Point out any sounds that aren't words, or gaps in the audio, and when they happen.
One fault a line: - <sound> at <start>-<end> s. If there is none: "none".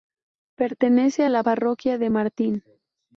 none